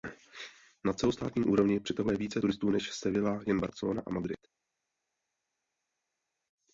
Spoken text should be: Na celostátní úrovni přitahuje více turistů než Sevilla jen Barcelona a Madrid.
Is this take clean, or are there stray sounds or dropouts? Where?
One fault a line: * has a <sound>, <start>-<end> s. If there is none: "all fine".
all fine